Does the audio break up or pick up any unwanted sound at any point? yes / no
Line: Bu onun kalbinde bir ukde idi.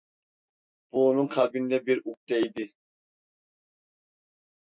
no